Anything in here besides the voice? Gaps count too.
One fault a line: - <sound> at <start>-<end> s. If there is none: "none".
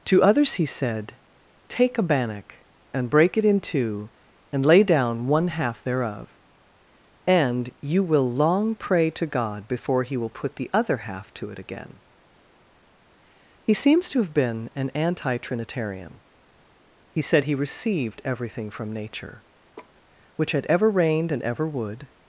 - laugh at 19.8-20.0 s